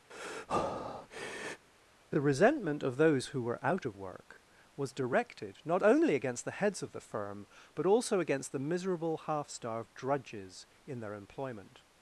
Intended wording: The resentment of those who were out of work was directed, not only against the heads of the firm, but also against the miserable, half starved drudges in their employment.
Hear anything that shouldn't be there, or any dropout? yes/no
yes